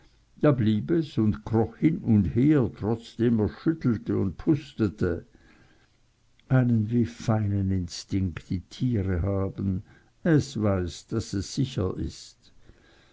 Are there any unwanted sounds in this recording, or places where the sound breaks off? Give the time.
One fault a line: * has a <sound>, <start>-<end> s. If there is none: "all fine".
all fine